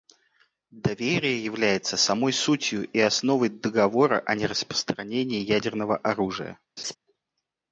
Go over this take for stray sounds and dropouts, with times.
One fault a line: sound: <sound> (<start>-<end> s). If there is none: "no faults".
sound: laugh (6.8-7.0 s)